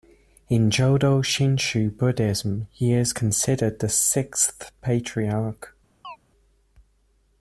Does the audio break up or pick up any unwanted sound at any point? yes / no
yes